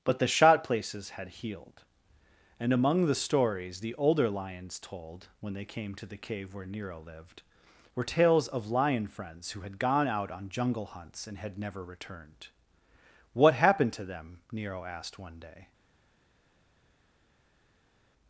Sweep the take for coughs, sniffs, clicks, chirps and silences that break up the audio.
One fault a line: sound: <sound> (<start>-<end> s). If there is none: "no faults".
no faults